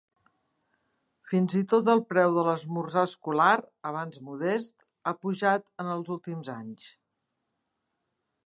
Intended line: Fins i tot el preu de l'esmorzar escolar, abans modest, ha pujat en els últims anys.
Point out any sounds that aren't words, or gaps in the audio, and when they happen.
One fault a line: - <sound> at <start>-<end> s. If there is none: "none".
none